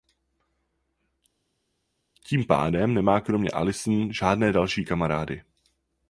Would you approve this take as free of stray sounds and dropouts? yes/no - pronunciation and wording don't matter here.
yes